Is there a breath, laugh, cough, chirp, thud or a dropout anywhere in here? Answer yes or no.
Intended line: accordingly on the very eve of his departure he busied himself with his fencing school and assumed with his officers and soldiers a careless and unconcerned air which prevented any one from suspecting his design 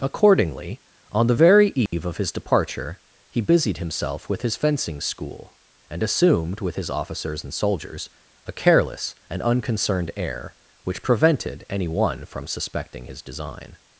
yes